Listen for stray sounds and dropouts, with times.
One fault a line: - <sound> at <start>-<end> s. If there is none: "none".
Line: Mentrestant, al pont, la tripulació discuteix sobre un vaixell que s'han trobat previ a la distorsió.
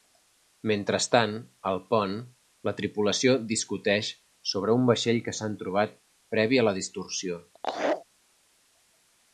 - laugh at 7.5-8.1 s